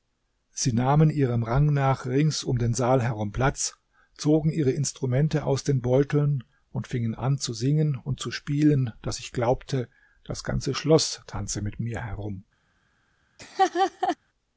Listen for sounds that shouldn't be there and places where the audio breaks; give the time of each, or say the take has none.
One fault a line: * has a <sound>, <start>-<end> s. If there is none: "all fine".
* has a laugh, 13.4-14.2 s